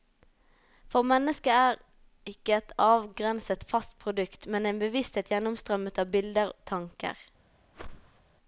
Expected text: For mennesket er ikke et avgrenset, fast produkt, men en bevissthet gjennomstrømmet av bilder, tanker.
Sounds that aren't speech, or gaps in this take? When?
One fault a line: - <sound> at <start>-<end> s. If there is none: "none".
- whoosh at 7.7-8.2 s